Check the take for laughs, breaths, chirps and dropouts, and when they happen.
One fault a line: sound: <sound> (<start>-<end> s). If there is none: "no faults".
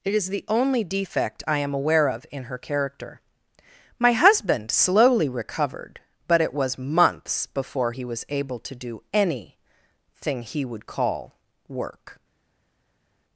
no faults